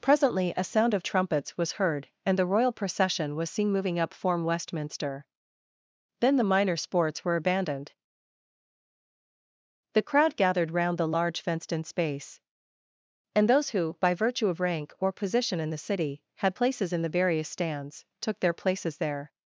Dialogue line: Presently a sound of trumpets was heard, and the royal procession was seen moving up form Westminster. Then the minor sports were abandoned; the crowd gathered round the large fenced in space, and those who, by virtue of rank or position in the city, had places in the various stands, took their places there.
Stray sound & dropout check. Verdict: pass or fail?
pass